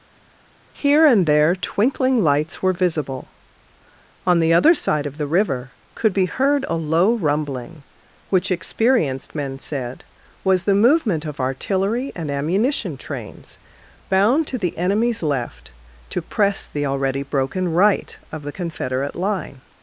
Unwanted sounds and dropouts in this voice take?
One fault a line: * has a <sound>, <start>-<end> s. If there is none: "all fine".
all fine